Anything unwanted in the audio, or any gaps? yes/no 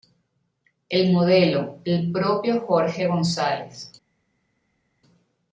no